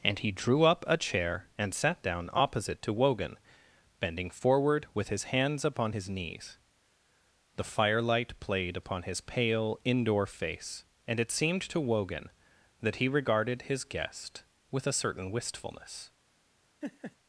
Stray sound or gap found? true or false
true